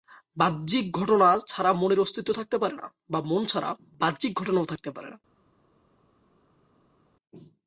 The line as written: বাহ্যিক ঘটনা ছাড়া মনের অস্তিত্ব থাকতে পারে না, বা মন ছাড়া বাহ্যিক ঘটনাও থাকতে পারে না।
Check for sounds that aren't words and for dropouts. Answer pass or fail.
pass